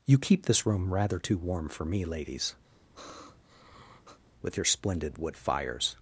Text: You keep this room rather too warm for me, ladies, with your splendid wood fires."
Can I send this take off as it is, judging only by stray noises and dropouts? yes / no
no